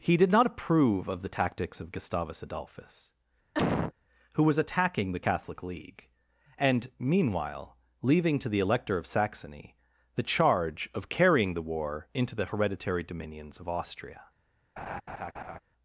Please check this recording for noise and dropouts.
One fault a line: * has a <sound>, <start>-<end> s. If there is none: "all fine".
* has a cough, 3.5-3.9 s
* has a laugh, 14.8-15.6 s